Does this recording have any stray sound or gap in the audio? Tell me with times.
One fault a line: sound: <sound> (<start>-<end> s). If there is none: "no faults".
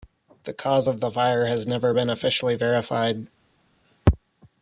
no faults